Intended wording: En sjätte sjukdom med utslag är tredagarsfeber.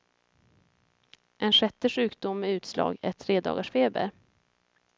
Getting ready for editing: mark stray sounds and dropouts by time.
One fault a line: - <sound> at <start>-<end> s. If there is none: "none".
none